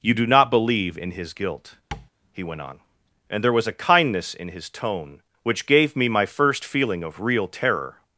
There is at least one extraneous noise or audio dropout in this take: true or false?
true